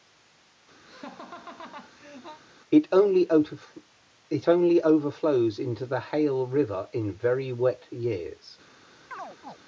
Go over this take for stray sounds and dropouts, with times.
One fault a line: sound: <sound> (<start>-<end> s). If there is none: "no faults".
sound: laugh (0.9-2.4 s)
sound: chirp (9.1-9.6 s)